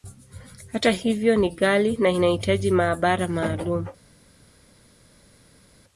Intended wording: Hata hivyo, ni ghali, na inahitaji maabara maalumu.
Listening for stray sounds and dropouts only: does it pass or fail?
pass